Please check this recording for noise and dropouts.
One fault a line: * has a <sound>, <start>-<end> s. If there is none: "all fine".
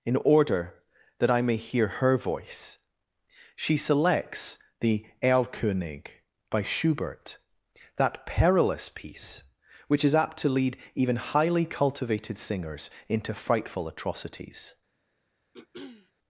* has a throat clearing, 15.5-16.1 s